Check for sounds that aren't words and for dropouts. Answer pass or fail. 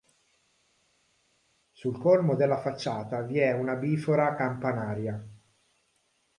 pass